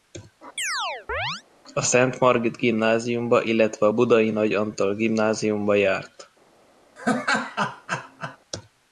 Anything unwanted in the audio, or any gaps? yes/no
yes